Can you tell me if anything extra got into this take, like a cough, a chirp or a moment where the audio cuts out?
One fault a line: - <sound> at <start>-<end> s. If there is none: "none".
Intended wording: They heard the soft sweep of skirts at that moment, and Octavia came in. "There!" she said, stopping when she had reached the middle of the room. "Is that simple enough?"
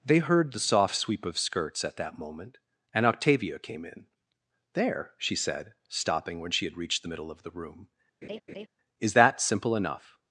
- laugh at 8.2-8.7 s